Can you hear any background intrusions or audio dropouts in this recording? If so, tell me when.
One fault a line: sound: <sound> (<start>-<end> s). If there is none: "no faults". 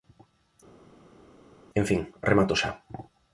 no faults